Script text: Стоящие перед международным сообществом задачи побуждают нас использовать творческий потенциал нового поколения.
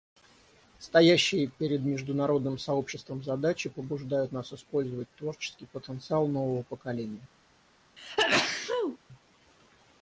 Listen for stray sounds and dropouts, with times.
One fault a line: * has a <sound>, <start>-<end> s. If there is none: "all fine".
* has a sneeze, 8.0-9.0 s